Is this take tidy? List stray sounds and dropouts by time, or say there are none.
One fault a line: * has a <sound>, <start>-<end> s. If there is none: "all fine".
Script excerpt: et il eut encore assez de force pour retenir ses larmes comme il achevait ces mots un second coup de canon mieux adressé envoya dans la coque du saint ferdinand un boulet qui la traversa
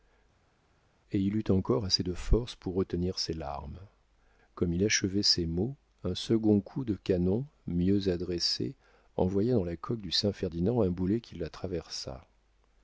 all fine